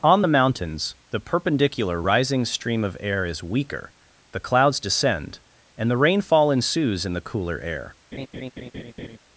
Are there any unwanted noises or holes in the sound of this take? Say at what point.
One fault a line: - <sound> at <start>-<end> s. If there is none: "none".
- laugh at 8.1-9.2 s